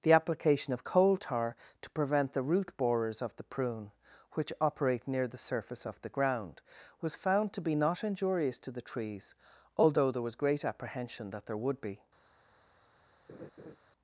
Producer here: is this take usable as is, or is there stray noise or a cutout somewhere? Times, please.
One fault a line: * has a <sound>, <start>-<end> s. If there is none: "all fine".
* has a laugh, 13.3-13.8 s